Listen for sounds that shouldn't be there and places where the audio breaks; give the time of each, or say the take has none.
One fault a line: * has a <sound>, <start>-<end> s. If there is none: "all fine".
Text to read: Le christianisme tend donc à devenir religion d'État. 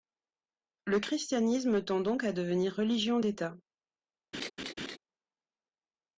* has a laugh, 4.3-5.0 s